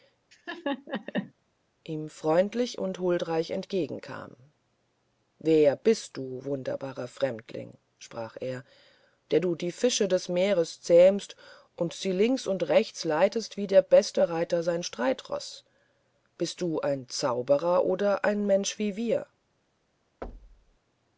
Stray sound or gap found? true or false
true